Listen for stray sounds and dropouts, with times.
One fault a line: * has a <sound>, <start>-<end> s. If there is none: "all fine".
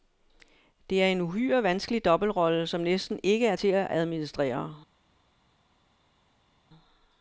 all fine